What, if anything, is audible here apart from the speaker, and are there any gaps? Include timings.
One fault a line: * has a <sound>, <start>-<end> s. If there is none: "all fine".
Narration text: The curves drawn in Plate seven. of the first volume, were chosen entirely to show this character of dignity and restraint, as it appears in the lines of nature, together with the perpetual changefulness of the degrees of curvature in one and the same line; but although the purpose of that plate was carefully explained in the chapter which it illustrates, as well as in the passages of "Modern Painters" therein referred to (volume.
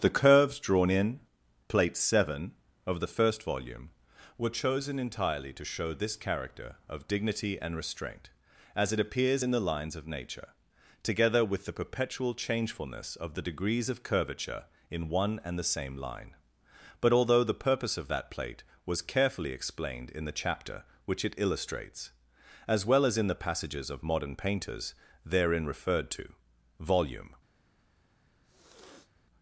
* has a sniff, 28.4-29.1 s